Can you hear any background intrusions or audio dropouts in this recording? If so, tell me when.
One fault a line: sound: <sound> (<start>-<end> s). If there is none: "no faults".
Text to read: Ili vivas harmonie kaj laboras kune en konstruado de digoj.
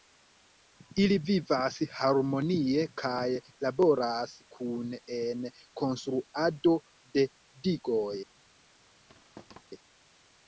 sound: thud (9.1-9.6 s)